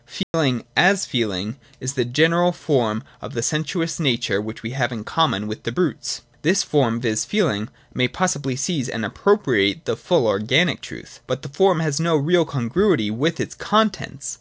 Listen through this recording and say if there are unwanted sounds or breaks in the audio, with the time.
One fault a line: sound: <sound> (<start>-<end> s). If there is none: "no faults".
sound: dropout (0.2-0.3 s)